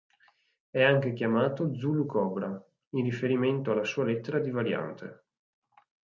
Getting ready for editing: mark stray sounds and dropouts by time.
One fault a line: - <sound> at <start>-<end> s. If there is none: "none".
none